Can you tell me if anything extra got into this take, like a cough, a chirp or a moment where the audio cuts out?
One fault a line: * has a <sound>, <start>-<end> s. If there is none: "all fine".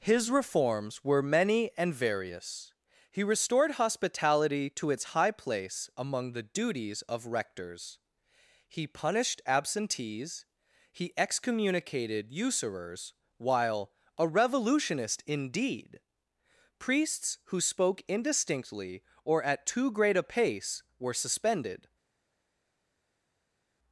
all fine